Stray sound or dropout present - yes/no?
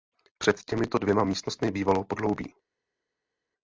no